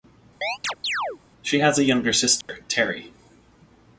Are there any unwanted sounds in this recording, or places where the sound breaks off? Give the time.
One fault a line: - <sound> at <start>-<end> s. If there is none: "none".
- chirp at 0.4-1.2 s
- dropout at 2.4-2.5 s